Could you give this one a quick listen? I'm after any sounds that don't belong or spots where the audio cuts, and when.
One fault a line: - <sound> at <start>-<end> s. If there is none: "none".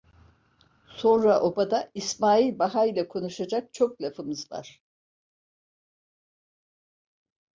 none